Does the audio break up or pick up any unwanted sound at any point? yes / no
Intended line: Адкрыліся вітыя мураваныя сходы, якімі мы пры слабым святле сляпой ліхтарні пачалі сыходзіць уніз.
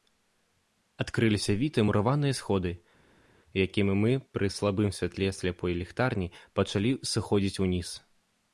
no